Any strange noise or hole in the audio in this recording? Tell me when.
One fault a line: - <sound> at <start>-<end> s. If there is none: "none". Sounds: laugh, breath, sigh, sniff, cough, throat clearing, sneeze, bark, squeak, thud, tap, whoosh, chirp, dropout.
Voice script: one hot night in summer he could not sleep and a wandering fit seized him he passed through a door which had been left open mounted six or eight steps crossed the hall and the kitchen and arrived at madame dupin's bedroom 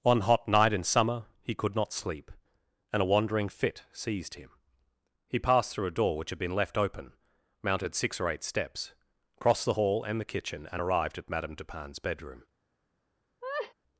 - laugh at 13.4-13.7 s